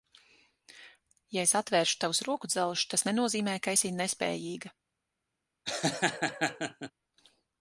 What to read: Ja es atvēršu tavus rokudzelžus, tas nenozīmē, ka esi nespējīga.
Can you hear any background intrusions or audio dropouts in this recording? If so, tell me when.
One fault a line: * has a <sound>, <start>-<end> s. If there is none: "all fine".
* has a laugh, 5.7-6.9 s